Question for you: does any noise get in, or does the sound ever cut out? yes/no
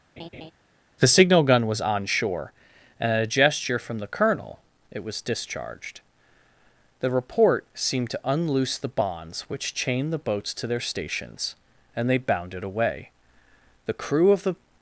yes